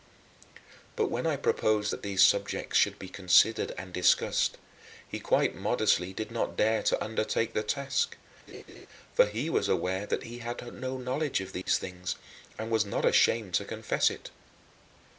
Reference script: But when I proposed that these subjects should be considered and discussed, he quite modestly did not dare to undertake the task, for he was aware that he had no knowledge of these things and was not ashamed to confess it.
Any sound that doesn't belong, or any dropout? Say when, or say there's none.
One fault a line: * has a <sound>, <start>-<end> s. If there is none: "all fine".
* has a laugh, 8.5-8.9 s
* has a dropout, 11.6-11.7 s